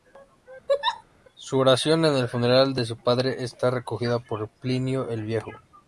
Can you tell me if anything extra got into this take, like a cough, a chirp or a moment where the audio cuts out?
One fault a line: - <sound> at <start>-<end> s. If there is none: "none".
- laugh at 0.7-1.0 s